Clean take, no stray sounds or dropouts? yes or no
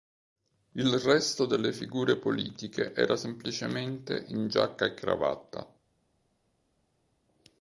yes